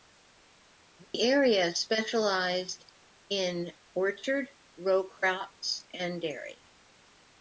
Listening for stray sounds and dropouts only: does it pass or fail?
fail